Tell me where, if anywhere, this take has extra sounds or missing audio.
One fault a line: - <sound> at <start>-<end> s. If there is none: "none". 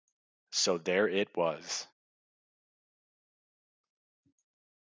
none